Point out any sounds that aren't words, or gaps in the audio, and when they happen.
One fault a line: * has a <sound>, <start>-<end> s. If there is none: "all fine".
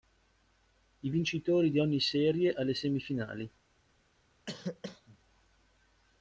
* has a cough, 4.5-5.2 s